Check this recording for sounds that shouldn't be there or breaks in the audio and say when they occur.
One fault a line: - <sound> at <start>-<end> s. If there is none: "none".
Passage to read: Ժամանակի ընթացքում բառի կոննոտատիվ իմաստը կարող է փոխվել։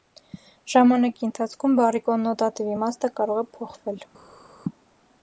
none